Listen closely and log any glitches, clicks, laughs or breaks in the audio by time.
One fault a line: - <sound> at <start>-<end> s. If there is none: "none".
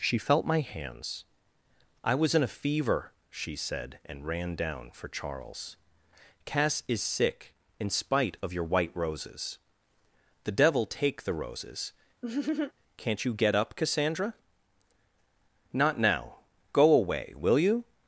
- laugh at 12.2-12.7 s